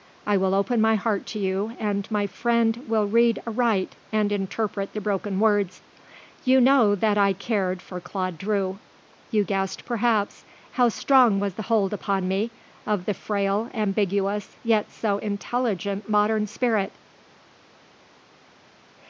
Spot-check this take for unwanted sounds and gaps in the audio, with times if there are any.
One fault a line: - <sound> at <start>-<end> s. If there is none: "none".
none